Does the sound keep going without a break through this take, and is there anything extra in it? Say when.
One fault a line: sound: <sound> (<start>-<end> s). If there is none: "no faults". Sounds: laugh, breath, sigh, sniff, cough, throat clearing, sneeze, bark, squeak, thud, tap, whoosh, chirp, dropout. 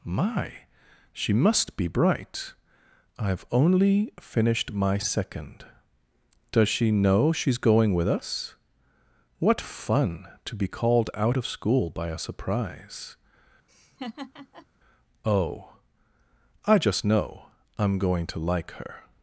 sound: laugh (13.7-14.7 s)